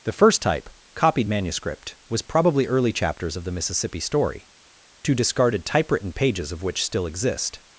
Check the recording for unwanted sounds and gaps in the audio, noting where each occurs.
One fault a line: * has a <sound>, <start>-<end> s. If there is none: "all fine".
all fine